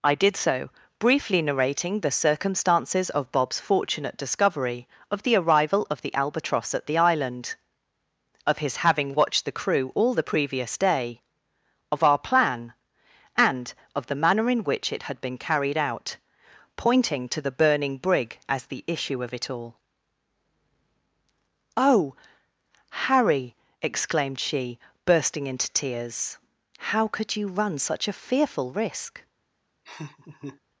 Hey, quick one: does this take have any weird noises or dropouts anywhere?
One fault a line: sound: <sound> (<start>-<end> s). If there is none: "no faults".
sound: laugh (29.9-30.6 s)